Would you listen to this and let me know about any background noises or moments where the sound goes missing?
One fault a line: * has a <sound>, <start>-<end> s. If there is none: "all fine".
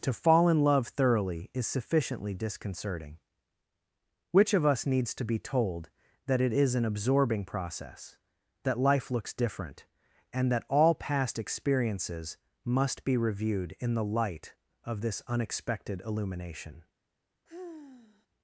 * has a sigh, 17.5-18.3 s